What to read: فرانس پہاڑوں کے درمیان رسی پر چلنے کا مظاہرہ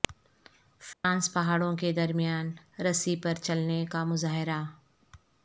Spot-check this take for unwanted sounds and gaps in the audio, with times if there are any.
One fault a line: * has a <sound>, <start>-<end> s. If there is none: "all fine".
* has a dropout, 0.9-1.0 s